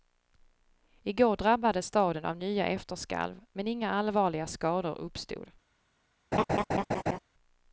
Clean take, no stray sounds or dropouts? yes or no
no